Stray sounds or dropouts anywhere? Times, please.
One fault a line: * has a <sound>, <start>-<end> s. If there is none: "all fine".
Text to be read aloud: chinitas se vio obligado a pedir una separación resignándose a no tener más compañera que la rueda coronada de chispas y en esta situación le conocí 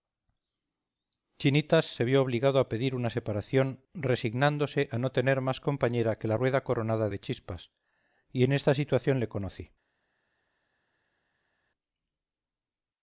all fine